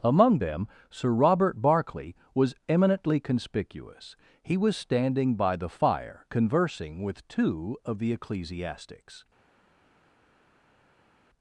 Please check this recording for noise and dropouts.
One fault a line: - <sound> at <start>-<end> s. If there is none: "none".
none